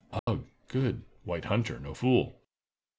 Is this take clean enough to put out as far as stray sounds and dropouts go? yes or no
no